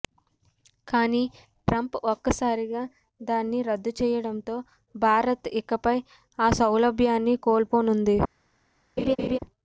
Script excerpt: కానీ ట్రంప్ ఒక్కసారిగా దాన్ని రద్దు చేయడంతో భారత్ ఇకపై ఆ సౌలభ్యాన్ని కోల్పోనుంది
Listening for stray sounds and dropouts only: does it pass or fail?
fail